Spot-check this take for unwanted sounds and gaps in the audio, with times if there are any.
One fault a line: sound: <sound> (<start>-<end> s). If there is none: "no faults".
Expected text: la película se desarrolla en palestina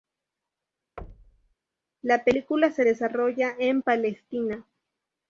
sound: thud (1.0-1.5 s)